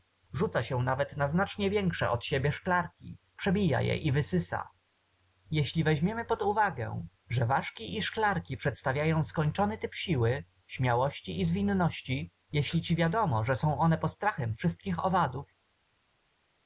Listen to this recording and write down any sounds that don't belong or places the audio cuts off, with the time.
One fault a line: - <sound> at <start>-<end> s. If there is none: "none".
none